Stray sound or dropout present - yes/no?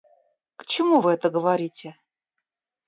no